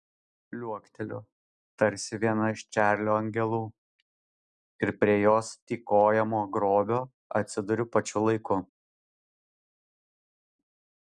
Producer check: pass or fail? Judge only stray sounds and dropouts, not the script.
pass